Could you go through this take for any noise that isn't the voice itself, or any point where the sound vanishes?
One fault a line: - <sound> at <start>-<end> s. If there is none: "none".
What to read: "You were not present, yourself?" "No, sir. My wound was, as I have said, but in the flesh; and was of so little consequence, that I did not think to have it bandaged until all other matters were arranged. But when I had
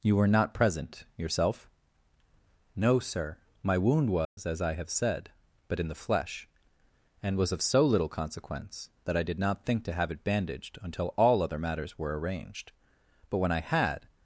- dropout at 4.2-4.4 s